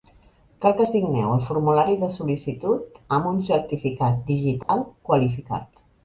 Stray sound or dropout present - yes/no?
yes